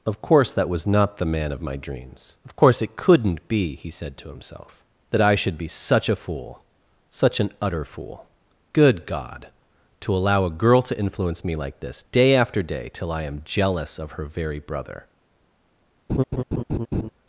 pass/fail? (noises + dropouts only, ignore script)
fail